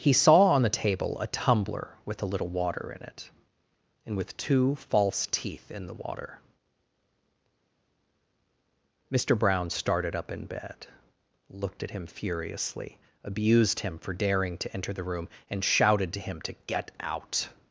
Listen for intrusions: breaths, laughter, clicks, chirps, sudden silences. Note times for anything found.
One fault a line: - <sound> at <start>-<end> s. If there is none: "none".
none